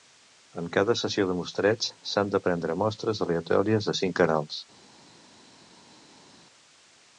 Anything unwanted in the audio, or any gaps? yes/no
no